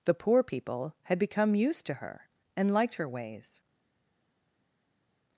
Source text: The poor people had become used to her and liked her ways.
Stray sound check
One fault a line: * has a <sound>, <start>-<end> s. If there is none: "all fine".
all fine